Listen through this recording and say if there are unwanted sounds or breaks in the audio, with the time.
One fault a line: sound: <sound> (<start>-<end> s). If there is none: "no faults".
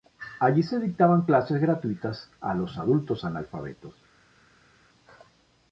no faults